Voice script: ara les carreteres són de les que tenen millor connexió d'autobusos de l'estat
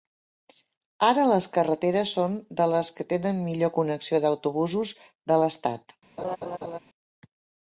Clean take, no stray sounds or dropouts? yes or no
no